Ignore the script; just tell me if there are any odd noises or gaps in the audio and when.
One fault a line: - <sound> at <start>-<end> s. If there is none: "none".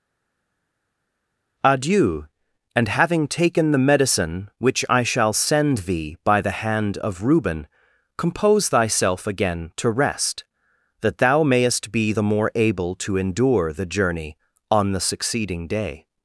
none